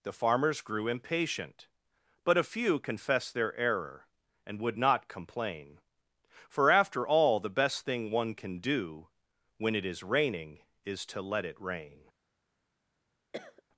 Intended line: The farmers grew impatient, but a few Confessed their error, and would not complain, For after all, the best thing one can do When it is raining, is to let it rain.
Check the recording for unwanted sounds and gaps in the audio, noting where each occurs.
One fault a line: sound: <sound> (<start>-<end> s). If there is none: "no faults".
sound: cough (13.3-13.6 s)